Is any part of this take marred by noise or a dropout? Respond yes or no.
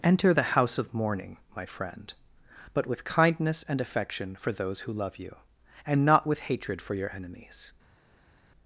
no